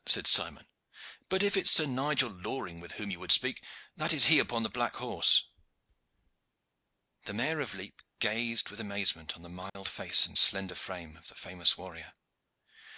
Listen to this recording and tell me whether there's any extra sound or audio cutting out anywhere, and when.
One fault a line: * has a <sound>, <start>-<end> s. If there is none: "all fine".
* has a dropout, 9.7-9.8 s